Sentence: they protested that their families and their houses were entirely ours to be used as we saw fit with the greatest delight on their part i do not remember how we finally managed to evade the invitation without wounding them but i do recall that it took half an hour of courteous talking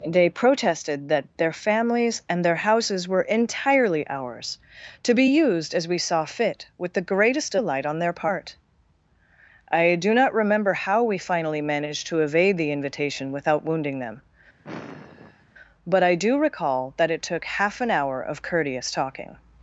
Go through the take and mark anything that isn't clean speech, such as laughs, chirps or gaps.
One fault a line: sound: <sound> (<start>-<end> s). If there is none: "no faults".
sound: sigh (14.6-15.5 s)